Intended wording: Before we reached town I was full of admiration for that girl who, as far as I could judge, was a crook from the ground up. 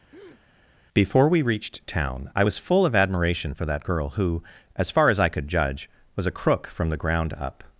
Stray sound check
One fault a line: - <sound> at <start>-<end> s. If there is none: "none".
- breath at 0.1-0.4 s